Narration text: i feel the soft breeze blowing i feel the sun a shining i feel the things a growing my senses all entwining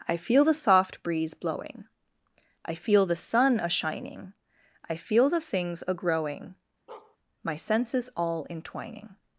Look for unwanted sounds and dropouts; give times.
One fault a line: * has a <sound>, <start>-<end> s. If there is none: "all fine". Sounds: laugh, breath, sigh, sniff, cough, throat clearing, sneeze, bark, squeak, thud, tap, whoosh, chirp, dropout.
* has a bark, 6.9-7.2 s